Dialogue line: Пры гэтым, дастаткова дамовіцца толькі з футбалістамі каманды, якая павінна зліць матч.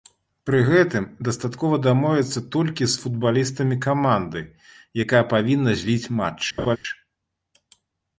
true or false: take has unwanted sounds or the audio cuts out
true